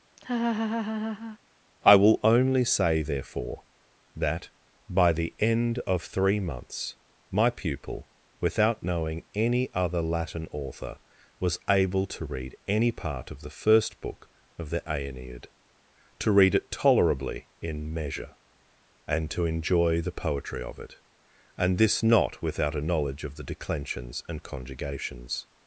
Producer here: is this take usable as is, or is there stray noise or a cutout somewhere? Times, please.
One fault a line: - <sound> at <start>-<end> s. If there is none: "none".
- laugh at 0.2-1.4 s